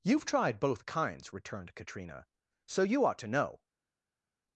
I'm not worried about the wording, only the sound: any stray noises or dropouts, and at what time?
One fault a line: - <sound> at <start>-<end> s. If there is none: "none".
none